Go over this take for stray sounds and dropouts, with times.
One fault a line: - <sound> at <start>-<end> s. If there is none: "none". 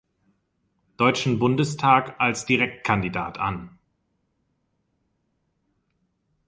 none